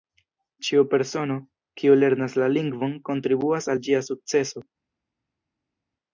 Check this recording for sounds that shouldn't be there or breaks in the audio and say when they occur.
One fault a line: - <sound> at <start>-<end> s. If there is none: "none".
none